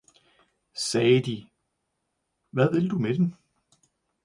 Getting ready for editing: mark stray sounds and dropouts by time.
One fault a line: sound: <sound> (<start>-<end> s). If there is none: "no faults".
no faults